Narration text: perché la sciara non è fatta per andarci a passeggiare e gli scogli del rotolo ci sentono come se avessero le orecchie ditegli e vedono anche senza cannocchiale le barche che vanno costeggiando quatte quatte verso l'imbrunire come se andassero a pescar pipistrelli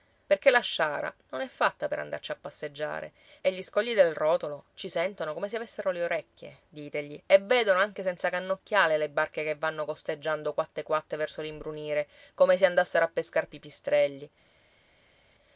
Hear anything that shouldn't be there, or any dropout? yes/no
no